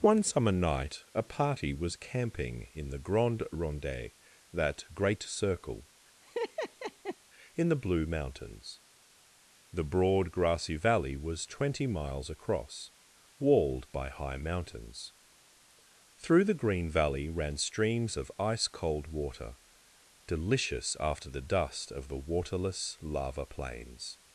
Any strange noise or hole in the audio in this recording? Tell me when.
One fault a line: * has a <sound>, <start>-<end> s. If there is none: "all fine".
* has a laugh, 6.2-7.2 s